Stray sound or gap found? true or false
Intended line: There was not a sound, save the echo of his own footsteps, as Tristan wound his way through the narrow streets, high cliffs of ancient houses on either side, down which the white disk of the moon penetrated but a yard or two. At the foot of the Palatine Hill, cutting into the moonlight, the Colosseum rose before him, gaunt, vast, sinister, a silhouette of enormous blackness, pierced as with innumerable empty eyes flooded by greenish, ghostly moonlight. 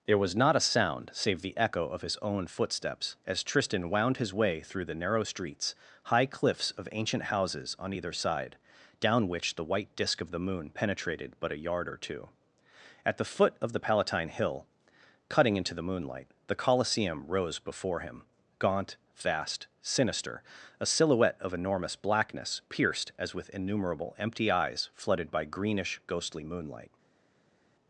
false